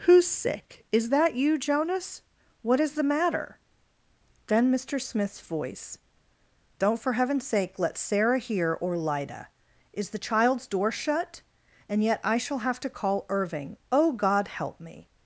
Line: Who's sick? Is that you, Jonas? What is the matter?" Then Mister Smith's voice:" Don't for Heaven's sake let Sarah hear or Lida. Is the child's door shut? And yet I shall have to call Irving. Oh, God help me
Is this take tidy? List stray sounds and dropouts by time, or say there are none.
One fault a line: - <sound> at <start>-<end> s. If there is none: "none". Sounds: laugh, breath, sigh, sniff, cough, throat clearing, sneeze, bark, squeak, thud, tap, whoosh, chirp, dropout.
none